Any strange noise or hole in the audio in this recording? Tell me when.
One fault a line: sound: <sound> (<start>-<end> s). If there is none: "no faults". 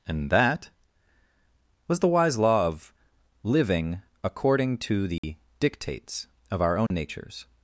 sound: dropout (5.2-5.2 s)
sound: dropout (6.9-6.9 s)